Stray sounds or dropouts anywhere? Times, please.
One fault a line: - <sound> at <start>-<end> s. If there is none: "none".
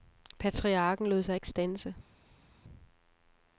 none